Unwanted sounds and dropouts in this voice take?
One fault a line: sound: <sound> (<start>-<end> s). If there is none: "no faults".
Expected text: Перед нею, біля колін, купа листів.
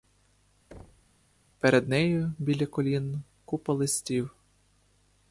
sound: thud (0.7-1.2 s)